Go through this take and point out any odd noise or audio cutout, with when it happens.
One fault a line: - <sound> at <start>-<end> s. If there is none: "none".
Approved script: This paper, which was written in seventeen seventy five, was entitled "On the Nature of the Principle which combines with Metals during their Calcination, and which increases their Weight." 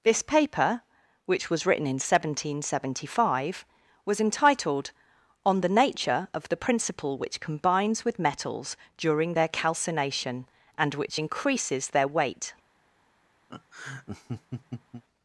- laugh at 13.5-15.0 s